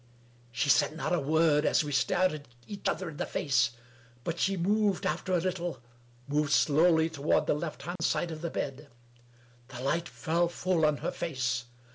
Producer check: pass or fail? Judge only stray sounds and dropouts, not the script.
fail